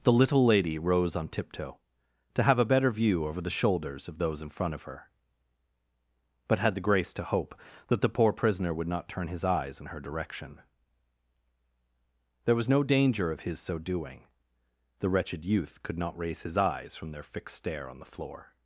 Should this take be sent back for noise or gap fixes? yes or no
no